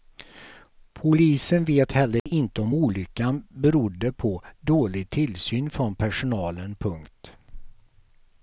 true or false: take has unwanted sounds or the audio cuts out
true